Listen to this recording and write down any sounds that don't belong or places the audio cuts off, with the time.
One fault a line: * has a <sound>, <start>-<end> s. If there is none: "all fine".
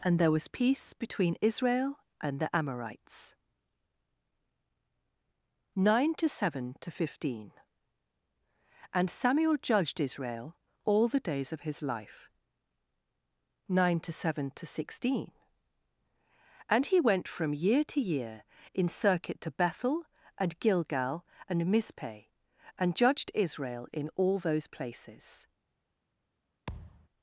* has a thud, 26.7-27.1 s